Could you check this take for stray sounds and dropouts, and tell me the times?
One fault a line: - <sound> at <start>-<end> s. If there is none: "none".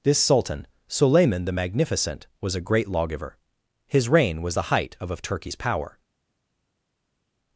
none